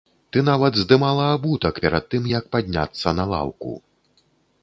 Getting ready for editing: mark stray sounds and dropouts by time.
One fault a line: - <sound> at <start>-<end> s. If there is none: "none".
none